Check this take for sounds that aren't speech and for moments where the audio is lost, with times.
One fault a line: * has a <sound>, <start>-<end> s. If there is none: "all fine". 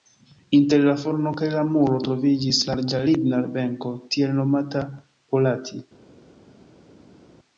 all fine